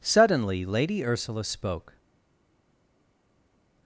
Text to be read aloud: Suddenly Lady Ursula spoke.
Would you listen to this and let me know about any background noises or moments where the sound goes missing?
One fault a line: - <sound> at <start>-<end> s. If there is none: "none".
none